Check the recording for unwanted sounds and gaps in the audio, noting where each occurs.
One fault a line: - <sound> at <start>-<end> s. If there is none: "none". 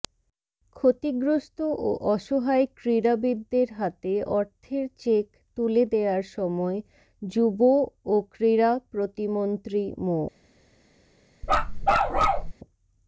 - bark at 11.4-12.5 s